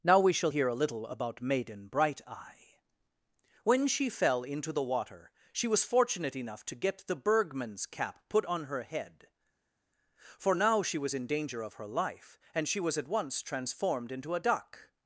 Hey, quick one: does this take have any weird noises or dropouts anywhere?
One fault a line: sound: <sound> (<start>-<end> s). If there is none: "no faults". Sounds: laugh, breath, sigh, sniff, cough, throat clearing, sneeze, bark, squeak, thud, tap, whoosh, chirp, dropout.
no faults